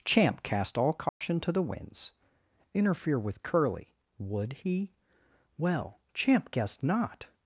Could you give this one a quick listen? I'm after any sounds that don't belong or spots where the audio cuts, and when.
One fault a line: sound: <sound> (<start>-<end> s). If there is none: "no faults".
sound: dropout (1.1-1.2 s)